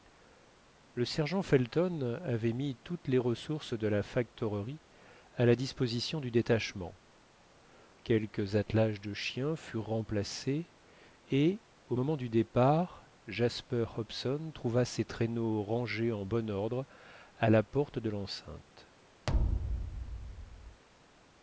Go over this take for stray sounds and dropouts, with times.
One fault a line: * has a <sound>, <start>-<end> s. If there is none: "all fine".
* has a thud, 19.3-20.8 s